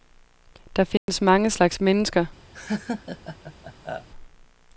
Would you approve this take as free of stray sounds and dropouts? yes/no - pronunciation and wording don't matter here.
no